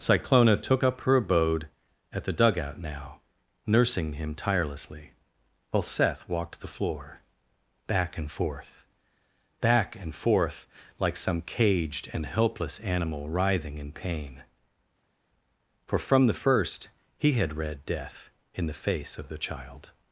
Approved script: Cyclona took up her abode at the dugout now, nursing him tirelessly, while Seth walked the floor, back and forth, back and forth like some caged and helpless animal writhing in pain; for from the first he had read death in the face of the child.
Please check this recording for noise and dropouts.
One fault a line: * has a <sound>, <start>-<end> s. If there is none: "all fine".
all fine